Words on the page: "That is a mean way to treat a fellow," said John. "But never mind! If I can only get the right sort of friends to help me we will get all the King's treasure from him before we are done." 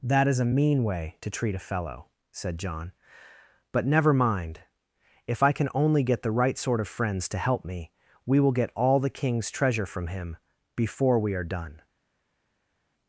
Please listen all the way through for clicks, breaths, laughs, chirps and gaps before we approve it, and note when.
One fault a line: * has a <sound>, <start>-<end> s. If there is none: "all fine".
all fine